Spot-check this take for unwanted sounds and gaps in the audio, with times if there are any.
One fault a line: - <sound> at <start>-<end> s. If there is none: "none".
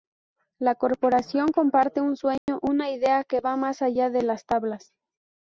- dropout at 2.4-2.5 s